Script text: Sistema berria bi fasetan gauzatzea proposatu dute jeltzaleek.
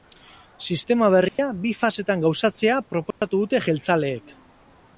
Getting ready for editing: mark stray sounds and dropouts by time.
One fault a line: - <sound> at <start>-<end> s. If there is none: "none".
- dropout at 1.3-1.4 s
- dropout at 3.1-3.2 s